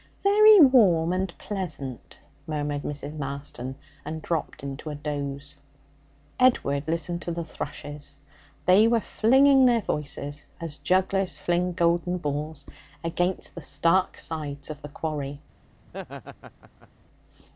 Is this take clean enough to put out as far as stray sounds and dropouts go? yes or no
no